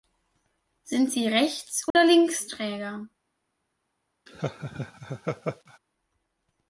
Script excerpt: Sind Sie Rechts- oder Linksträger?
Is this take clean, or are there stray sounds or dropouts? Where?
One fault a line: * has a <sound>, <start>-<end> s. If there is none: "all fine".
* has a dropout, 1.9-1.9 s
* has a laugh, 4.3-5.8 s